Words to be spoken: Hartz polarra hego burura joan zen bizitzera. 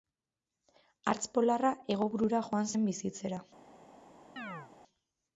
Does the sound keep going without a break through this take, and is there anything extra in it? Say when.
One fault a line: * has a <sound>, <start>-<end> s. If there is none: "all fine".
* has a chirp, 4.4-4.7 s